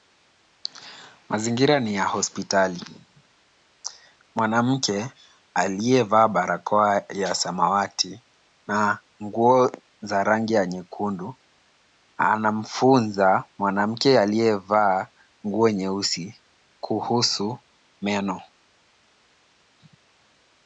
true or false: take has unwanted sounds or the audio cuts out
false